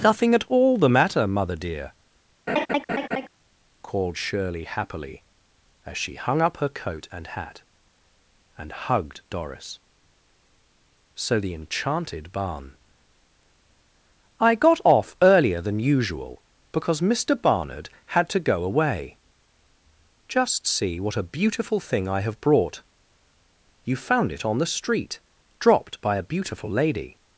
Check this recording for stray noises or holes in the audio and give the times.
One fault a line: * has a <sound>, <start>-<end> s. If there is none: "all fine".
* has a laugh, 2.5-3.3 s